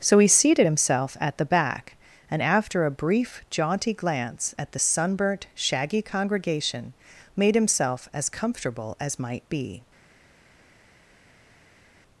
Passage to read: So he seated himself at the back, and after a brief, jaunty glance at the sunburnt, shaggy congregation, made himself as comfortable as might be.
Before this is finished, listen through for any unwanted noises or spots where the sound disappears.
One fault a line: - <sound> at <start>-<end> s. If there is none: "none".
none